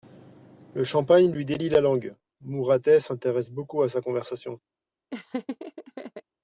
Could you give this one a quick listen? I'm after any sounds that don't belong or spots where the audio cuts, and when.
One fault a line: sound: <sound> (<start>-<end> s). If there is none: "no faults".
sound: laugh (5.1-6.2 s)